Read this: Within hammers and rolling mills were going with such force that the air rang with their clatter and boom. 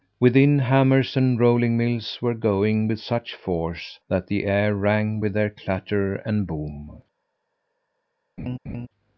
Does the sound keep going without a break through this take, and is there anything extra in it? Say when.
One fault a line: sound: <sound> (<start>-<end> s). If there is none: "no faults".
sound: laugh (8.4-8.9 s)